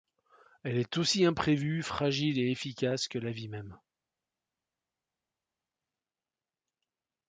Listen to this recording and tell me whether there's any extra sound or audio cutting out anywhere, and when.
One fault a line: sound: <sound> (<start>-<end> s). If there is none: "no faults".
no faults